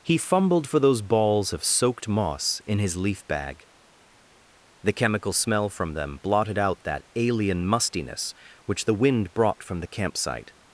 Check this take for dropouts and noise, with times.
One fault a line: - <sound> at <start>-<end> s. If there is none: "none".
none